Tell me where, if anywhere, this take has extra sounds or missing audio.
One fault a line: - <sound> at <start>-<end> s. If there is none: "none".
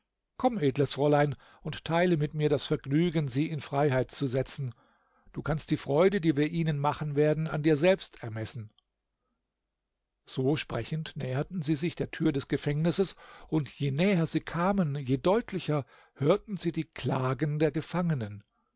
none